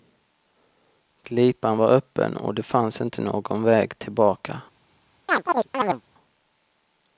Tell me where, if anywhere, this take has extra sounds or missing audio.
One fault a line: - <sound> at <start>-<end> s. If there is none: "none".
- chirp at 5.3-6.0 s